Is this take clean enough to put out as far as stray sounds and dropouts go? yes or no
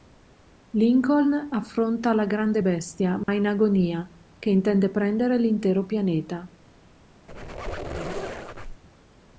no